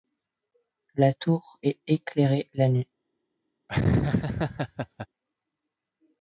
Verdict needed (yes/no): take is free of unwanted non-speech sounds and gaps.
no